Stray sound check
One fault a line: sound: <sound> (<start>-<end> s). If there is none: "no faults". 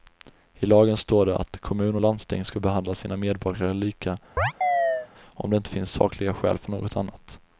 sound: chirp (4.4-5.1 s)